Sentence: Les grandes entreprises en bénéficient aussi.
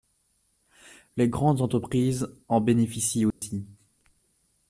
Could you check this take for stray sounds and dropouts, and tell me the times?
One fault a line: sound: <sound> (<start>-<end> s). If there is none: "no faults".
sound: dropout (3.3-3.4 s)